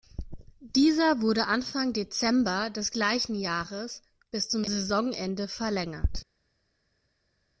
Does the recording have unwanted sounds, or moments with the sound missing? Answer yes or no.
no